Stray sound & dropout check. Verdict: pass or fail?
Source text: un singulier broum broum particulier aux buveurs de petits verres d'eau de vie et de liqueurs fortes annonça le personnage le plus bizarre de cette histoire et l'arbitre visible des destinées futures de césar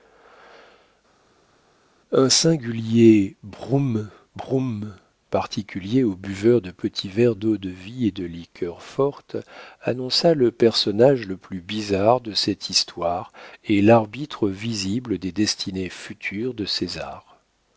pass